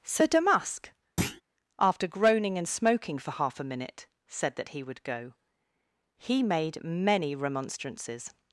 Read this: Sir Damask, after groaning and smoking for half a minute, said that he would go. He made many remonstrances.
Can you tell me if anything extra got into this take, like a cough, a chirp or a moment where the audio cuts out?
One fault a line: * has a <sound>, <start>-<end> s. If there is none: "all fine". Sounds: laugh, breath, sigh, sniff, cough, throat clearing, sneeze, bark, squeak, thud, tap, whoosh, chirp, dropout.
* has a thud, 1.2-1.4 s